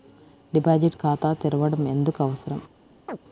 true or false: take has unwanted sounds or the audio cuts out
true